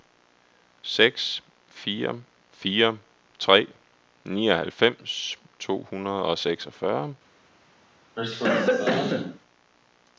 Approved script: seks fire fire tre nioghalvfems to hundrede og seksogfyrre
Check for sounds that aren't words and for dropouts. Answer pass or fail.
fail